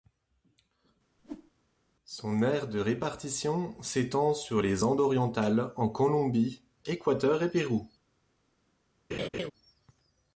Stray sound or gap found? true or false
true